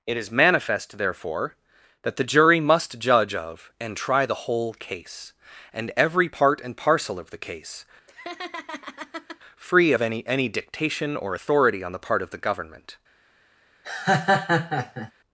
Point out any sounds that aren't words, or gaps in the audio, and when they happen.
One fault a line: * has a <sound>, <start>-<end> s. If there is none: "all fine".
* has a laugh, 8.1-9.4 s
* has a laugh, 13.8-15.1 s